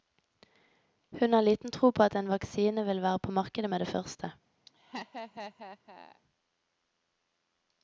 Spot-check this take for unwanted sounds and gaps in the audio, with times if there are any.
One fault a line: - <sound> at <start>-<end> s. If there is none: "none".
- laugh at 4.7-6.2 s